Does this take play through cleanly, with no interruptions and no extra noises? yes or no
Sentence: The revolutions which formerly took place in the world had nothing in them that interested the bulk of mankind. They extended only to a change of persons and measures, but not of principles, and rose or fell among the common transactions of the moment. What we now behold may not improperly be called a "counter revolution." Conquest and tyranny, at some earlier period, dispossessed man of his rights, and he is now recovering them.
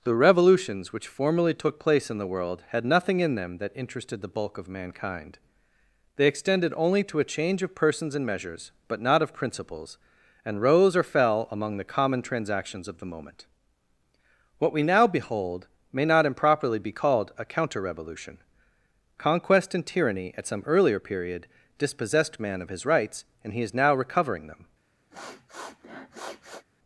no